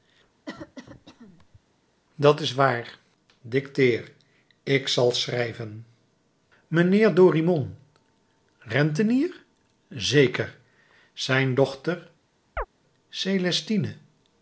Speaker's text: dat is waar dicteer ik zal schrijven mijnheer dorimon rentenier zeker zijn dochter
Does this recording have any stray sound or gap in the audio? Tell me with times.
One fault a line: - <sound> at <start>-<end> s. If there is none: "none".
- cough at 0.5-1.6 s
- chirp at 12.6-12.7 s